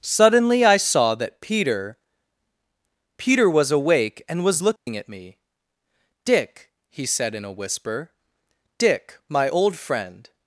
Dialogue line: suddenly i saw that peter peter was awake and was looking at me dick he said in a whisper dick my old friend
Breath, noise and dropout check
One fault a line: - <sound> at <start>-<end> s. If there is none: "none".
- dropout at 4.8-4.9 s